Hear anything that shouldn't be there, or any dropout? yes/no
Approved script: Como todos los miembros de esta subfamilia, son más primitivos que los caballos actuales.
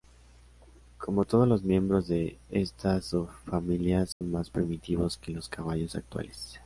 yes